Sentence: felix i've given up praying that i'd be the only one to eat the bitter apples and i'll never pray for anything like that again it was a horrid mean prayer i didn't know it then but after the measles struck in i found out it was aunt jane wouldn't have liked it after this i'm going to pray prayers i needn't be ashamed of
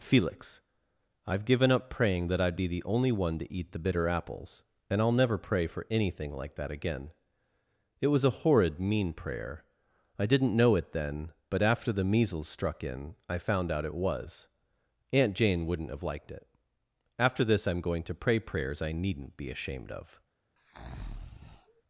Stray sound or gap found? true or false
true